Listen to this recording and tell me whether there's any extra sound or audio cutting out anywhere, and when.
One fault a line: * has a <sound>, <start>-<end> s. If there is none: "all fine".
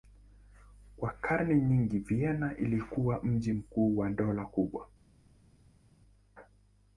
all fine